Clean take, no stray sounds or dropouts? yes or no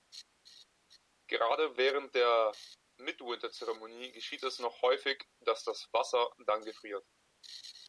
yes